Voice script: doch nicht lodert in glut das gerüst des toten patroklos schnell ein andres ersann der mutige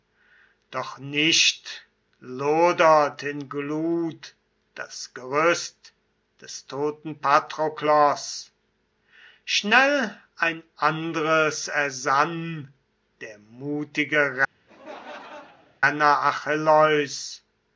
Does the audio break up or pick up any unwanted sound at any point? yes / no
yes